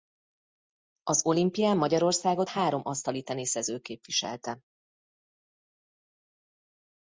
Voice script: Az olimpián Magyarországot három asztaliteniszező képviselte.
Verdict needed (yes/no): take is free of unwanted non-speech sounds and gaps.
yes